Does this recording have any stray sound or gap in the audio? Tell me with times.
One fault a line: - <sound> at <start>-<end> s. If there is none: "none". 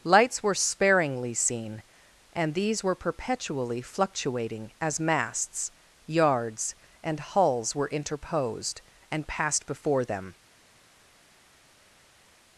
none